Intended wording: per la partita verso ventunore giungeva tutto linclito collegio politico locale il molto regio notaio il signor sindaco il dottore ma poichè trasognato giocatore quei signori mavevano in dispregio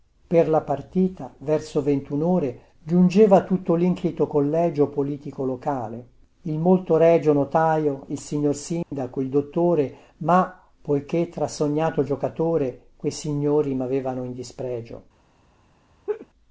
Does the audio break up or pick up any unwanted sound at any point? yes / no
yes